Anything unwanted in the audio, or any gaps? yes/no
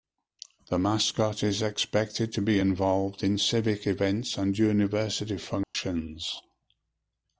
yes